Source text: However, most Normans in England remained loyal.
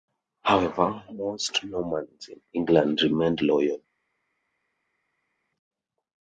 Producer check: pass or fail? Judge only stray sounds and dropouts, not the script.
pass